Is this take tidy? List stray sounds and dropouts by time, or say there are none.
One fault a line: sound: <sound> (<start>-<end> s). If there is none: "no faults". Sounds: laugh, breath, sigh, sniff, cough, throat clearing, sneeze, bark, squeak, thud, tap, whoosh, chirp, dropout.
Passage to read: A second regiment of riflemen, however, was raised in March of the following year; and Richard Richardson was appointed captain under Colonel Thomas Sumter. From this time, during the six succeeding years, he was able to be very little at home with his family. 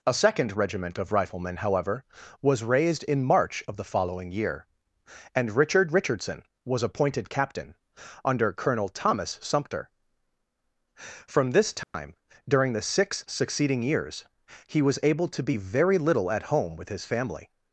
sound: dropout (11.8-11.9 s)